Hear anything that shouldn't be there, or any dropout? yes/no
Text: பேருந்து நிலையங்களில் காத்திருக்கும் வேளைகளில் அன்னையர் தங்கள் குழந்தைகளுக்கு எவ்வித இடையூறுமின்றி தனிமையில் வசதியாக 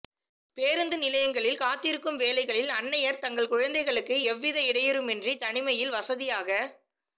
no